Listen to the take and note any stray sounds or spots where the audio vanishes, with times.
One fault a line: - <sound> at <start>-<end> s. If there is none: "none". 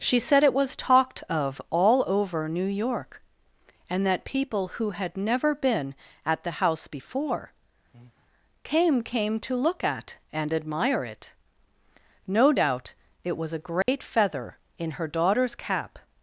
- breath at 7.9-8.3 s
- dropout at 13.8-13.9 s